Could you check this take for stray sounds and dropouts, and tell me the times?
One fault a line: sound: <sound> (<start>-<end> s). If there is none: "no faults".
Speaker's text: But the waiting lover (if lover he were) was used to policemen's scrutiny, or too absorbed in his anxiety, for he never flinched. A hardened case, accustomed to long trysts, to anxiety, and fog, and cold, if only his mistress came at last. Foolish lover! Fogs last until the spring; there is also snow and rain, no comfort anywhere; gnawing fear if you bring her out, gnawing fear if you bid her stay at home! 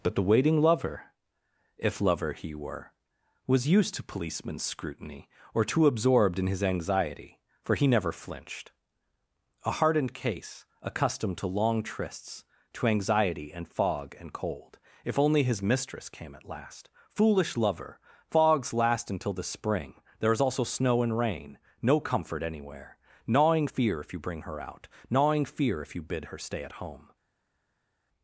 no faults